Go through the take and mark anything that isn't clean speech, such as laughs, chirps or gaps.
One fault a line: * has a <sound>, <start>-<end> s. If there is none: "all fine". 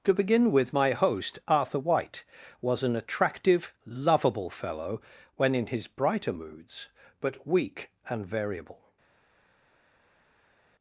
all fine